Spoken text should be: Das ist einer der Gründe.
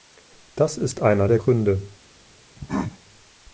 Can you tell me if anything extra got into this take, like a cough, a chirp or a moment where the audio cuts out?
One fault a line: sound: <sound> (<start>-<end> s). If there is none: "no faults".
sound: cough (2.6-3.0 s)